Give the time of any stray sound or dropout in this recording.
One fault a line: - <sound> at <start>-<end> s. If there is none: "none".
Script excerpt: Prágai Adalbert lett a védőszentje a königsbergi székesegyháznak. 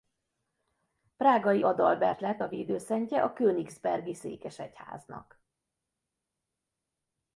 none